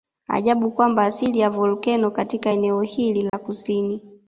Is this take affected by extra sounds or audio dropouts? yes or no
yes